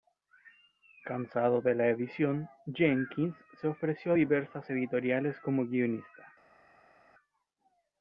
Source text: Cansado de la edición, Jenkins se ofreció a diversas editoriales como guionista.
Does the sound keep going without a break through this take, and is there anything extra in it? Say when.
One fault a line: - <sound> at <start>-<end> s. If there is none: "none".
none